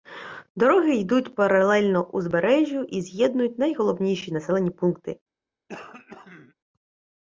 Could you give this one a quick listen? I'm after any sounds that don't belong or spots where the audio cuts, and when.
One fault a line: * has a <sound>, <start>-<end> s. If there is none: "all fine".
* has a throat clearing, 5.7-6.6 s